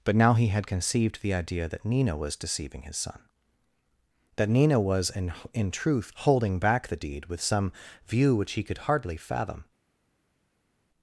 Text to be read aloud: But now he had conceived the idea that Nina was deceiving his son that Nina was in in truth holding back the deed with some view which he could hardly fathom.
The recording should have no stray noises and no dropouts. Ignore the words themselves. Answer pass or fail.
pass